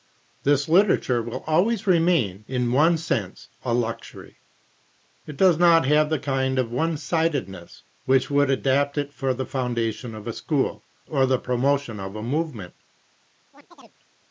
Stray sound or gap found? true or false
true